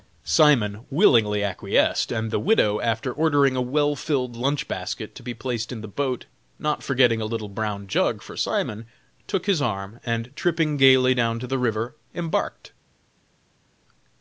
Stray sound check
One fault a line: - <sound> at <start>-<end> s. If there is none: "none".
none